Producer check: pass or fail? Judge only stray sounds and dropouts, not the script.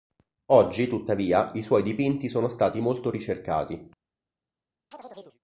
fail